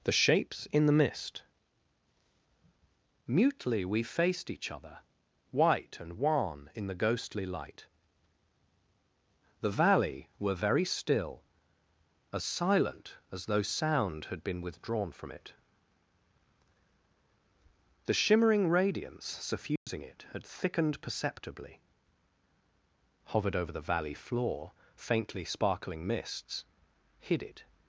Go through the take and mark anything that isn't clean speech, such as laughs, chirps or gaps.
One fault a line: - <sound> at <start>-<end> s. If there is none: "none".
- dropout at 19.8-19.9 s